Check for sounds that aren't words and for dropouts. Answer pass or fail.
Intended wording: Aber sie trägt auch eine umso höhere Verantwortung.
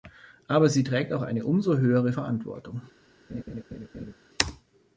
fail